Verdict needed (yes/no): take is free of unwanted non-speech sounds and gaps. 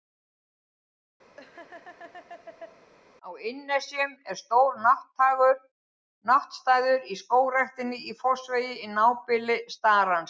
no